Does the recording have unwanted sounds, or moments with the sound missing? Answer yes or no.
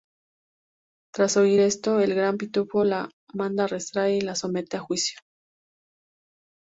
no